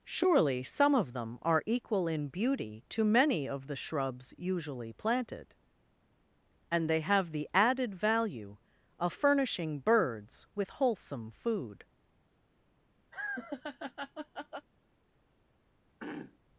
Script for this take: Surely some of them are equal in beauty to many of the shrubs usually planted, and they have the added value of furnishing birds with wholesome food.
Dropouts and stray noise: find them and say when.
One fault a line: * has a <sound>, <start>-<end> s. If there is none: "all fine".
* has a laugh, 13.1-14.7 s
* has a throat clearing, 16.0-16.4 s